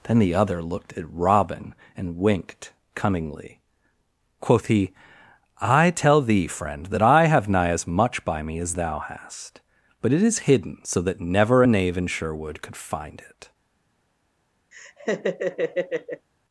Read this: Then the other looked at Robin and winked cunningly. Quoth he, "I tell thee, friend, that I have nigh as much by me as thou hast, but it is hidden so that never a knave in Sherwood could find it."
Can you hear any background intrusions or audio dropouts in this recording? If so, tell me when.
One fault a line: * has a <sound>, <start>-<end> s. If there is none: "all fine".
* has a laugh, 14.7-16.3 s